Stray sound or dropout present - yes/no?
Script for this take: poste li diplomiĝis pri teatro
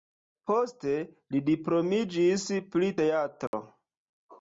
yes